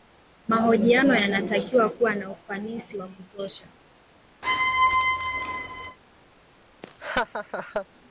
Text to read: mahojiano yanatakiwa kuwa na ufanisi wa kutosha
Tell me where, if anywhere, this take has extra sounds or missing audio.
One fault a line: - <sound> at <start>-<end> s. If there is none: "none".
- squeak at 4.4-6.0 s
- laugh at 6.8-7.9 s